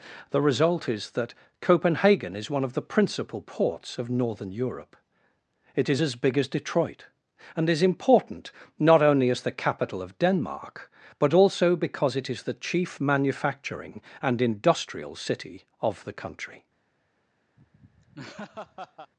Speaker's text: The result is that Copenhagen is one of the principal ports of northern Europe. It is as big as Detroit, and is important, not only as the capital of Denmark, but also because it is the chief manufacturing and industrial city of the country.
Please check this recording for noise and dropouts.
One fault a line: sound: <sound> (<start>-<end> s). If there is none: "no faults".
sound: laugh (17.6-19.1 s)